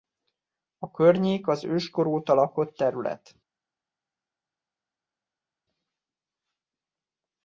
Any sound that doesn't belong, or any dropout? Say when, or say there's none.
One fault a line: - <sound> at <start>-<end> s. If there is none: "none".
none